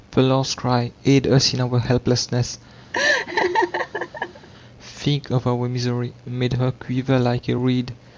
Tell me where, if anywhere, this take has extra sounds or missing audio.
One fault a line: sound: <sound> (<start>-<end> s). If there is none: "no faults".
sound: laugh (2.9-4.5 s)